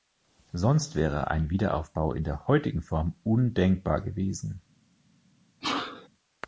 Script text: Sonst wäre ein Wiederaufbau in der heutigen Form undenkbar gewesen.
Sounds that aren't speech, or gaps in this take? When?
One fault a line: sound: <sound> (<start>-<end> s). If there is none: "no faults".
sound: sneeze (5.6-6.1 s)